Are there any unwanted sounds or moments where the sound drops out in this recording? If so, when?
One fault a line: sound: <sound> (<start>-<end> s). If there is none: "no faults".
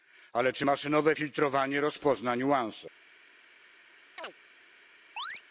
sound: chirp (4.2-4.3 s)
sound: chirp (5.2-5.4 s)